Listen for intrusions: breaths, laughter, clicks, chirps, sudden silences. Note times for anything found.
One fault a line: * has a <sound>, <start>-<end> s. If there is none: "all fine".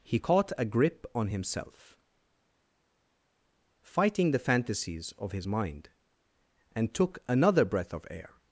all fine